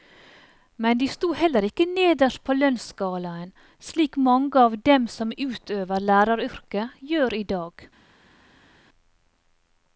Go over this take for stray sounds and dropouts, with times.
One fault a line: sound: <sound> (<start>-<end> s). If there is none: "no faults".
no faults